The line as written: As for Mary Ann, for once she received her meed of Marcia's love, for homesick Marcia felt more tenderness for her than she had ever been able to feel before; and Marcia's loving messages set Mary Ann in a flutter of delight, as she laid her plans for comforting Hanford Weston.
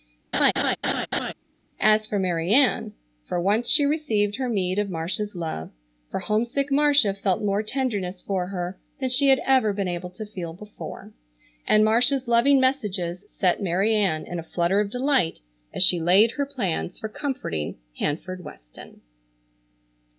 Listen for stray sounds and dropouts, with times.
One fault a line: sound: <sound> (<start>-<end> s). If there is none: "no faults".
sound: laugh (0.3-1.3 s)